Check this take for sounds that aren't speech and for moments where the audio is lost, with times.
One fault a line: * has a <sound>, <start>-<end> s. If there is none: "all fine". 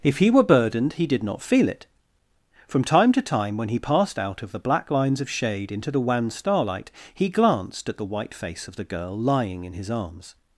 all fine